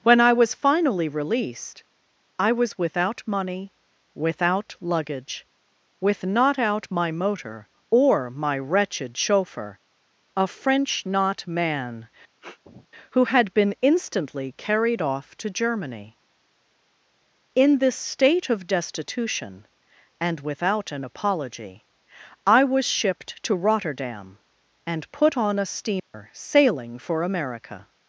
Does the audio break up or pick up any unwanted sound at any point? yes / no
yes